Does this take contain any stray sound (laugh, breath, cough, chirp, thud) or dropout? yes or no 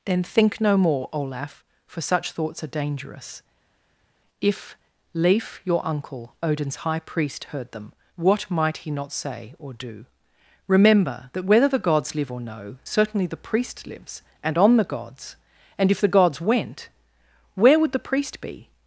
no